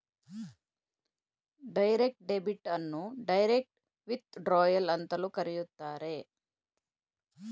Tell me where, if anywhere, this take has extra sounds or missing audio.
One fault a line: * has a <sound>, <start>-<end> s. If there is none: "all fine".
all fine